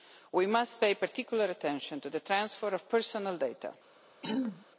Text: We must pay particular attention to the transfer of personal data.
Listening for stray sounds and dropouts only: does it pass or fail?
fail